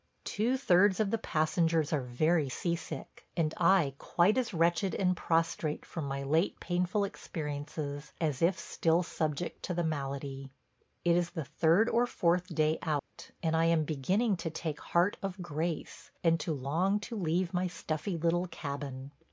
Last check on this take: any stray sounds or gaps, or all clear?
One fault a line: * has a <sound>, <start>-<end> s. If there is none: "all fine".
* has a dropout, 13.0-13.1 s